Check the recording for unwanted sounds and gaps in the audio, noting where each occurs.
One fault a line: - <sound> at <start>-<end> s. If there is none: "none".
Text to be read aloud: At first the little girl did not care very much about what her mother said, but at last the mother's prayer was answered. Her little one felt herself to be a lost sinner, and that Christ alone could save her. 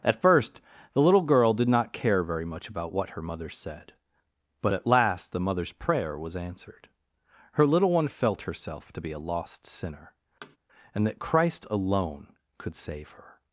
- thud at 10.4-10.6 s